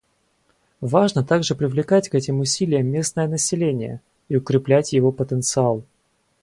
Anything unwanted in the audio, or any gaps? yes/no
no